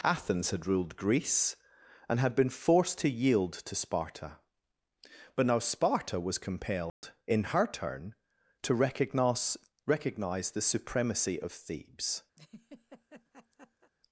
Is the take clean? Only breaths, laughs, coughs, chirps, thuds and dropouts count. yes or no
no